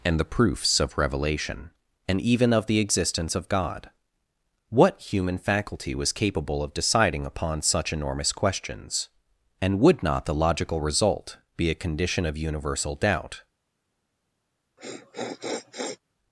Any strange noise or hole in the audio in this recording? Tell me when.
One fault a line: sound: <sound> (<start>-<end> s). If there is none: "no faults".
sound: sniff (14.8-16.0 s)